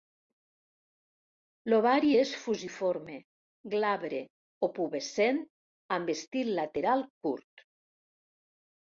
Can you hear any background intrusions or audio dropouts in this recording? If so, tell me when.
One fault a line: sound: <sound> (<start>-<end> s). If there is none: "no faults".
no faults